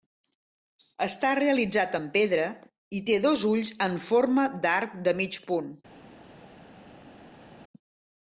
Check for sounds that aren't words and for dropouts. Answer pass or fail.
pass